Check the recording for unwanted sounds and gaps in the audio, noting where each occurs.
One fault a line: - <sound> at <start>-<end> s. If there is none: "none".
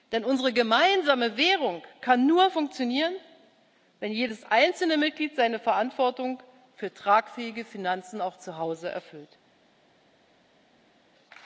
none